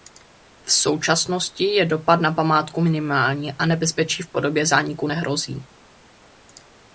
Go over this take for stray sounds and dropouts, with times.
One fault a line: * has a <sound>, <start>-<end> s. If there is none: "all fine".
all fine